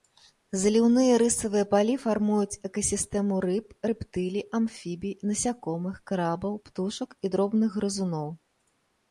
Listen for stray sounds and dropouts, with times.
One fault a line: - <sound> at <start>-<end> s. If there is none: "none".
none